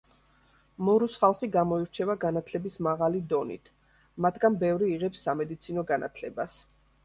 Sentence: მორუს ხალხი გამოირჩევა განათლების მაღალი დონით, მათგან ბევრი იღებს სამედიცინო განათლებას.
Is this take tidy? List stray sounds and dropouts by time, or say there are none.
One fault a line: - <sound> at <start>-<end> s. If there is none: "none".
none